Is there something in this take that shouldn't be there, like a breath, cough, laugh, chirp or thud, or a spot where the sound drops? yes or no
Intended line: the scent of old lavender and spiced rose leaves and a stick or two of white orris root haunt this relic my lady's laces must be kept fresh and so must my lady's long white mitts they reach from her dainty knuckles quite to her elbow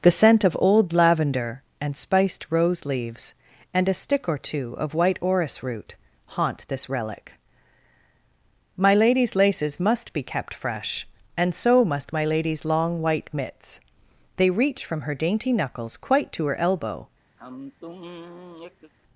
yes